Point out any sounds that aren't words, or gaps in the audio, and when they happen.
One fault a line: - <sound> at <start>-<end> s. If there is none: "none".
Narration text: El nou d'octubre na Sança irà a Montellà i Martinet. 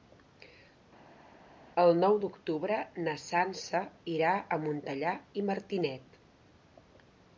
none